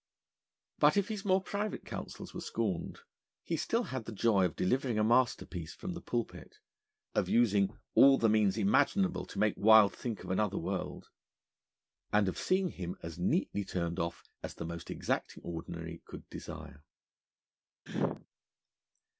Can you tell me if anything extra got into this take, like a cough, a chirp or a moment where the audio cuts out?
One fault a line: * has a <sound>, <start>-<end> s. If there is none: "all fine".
* has a sneeze, 17.9-18.3 s